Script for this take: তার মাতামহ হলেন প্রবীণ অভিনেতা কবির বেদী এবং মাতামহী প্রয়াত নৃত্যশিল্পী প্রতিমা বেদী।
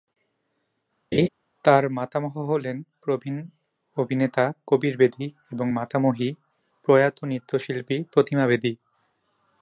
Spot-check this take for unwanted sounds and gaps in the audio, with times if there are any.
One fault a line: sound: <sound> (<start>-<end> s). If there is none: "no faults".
sound: laugh (1.1-1.3 s)